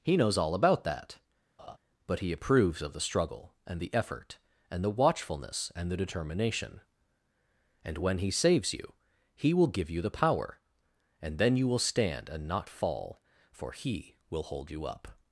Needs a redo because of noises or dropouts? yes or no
yes